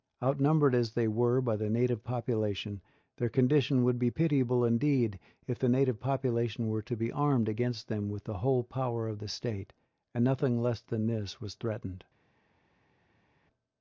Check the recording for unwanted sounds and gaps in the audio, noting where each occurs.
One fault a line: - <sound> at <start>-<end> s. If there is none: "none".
none